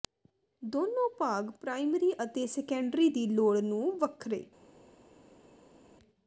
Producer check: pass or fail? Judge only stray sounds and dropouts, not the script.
pass